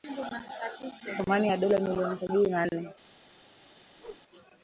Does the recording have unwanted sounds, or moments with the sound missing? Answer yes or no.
yes